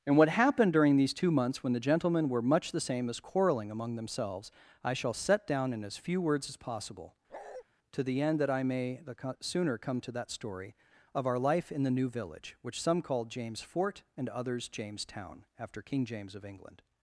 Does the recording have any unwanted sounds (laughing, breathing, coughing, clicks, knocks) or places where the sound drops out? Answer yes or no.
yes